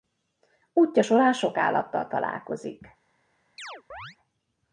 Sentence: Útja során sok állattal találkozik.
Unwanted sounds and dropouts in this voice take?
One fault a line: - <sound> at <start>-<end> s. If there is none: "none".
- chirp at 3.6-4.2 s